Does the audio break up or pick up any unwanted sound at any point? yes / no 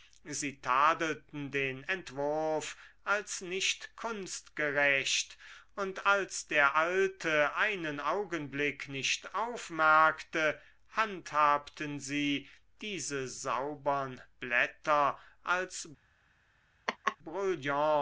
yes